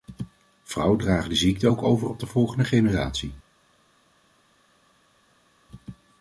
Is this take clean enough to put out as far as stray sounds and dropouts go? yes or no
yes